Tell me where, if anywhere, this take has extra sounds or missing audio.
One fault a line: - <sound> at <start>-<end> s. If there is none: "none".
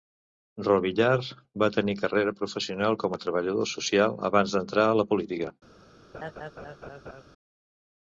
- laugh at 6.1-7.2 s